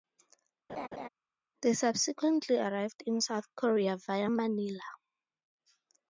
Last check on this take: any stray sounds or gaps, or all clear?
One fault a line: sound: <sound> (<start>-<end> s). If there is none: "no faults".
sound: laugh (0.7-1.1 s)